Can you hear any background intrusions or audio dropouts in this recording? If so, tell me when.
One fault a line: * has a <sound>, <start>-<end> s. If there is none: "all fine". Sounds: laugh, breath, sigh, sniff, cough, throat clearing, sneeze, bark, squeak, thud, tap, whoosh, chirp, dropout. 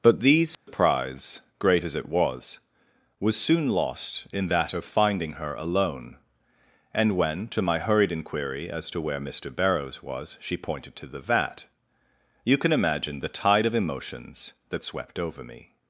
* has a dropout, 0.5-0.7 s